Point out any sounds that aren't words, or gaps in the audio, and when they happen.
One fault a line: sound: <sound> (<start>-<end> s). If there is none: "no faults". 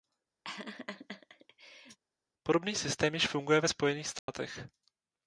sound: laugh (0.4-2.0 s)
sound: dropout (4.2-4.3 s)